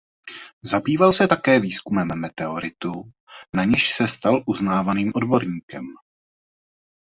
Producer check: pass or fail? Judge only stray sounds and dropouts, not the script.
pass